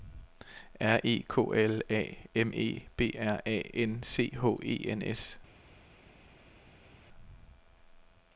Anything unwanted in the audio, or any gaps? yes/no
no